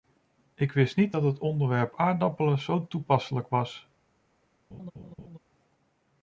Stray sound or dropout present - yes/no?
yes